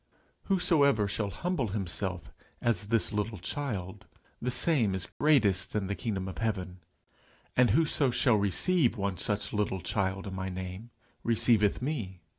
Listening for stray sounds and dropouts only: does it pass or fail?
fail